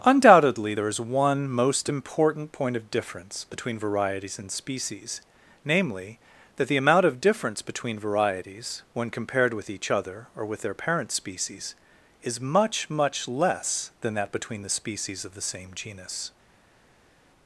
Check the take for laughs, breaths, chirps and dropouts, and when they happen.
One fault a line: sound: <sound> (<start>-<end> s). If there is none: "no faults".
no faults